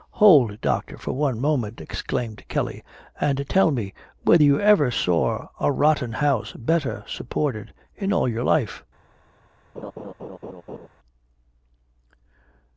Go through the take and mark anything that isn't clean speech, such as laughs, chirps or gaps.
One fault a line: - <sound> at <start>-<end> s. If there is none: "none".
- laugh at 9.8-10.9 s